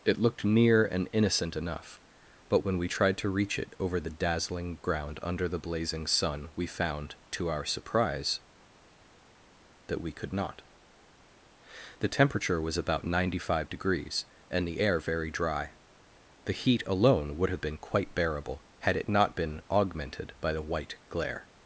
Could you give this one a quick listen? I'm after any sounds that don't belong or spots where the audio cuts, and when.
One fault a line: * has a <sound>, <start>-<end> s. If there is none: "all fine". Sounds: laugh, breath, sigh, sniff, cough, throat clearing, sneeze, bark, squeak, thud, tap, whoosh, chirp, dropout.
all fine